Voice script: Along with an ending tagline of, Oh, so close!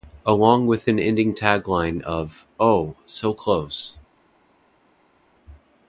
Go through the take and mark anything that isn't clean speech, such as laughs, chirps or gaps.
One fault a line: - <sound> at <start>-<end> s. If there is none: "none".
none